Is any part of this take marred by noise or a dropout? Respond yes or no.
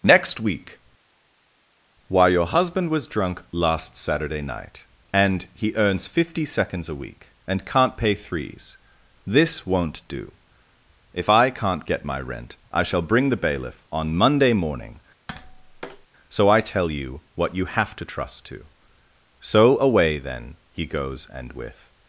yes